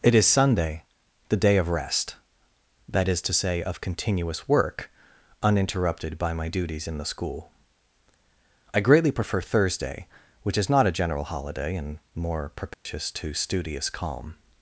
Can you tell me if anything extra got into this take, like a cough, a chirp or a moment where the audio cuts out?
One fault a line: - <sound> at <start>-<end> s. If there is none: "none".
- dropout at 12.7-12.9 s